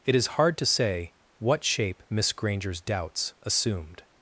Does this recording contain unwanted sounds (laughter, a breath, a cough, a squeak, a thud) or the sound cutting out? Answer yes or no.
no